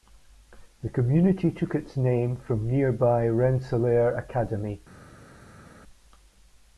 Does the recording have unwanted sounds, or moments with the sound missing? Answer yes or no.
no